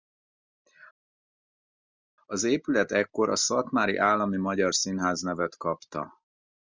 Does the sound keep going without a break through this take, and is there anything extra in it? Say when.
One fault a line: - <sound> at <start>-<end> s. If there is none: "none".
none